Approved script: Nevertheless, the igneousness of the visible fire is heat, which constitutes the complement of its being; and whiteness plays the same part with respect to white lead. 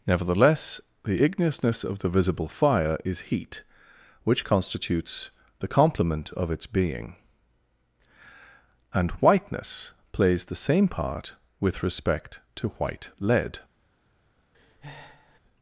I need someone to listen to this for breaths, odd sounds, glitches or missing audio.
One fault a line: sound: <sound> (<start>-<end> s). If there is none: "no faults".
sound: breath (14.5-15.4 s)